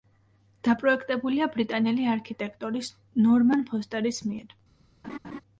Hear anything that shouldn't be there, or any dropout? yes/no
yes